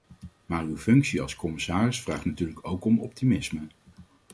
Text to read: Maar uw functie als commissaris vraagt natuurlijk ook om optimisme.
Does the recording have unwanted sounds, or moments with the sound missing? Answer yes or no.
no